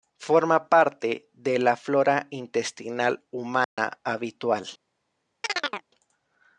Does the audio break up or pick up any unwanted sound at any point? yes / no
yes